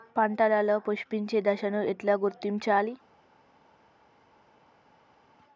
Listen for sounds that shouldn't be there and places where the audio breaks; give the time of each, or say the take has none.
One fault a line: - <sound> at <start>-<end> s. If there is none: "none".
none